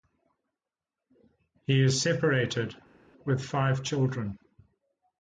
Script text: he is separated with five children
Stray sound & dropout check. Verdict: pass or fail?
pass